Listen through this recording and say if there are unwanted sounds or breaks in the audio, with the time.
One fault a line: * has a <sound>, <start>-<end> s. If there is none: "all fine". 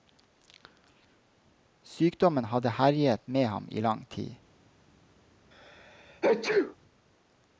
* has a sneeze, 5.5-6.8 s